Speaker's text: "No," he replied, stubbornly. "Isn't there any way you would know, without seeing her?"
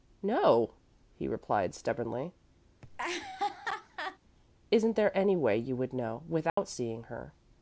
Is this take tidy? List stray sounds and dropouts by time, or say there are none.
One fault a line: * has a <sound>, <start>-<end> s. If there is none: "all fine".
* has a laugh, 2.8-4.2 s
* has a dropout, 6.5-6.6 s